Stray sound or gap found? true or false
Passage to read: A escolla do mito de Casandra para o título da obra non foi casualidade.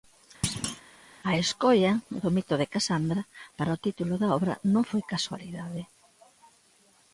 true